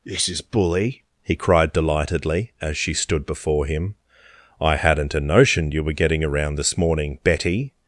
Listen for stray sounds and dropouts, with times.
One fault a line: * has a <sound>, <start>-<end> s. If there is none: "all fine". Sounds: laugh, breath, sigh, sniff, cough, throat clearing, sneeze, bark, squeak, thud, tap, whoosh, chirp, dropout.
all fine